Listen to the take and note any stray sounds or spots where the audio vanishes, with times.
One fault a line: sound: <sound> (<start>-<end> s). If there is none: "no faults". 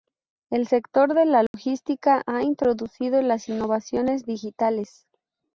sound: dropout (1.5-1.5 s)